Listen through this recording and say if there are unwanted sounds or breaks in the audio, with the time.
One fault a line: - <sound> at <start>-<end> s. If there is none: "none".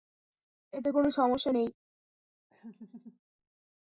- laugh at 2.5-3.2 s